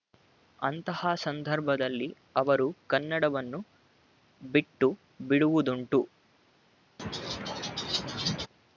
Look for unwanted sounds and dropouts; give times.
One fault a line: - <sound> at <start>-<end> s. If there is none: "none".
- laugh at 7.0-8.5 s